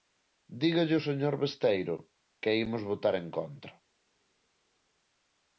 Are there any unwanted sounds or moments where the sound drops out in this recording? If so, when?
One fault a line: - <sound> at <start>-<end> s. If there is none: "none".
none